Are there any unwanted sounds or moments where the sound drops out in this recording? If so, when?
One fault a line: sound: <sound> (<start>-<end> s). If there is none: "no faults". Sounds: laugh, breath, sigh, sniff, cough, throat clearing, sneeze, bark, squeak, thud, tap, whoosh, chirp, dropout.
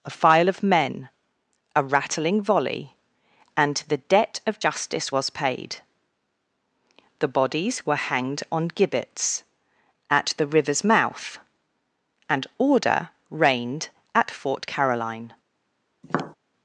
sound: tap (16.0-16.3 s)